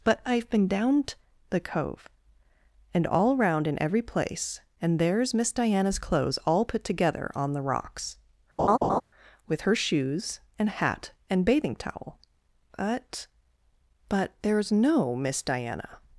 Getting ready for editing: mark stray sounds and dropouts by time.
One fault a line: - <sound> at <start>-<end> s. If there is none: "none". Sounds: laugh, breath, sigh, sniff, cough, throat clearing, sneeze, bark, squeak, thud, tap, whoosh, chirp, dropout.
- laugh at 8.6-9.0 s